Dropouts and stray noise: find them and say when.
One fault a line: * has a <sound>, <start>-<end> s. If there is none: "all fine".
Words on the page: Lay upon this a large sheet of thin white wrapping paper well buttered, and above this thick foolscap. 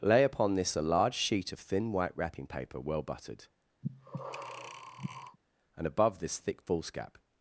* has a breath, 3.8-5.4 s